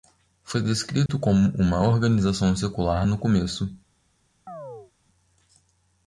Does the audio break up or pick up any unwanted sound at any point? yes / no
yes